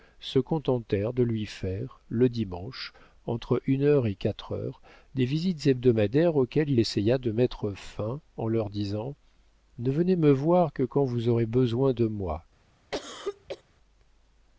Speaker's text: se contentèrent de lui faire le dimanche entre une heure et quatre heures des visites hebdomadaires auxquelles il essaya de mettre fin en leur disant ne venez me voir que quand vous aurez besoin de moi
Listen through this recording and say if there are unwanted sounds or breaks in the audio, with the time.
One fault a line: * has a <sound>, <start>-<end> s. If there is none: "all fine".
* has a cough, 12.9-13.6 s